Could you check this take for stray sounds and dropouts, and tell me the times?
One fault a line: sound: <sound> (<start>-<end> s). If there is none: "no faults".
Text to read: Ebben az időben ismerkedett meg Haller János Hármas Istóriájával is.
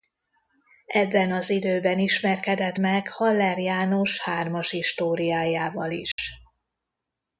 sound: dropout (6.1-6.2 s)